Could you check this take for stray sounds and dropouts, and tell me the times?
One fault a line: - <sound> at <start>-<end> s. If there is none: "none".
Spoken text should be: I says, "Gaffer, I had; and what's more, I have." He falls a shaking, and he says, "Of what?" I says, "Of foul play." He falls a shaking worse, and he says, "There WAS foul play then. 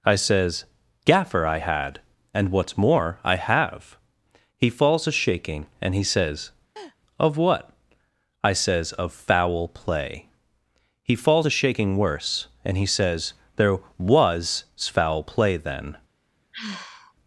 - laugh at 6.8-7.0 s
- sigh at 16.5-17.1 s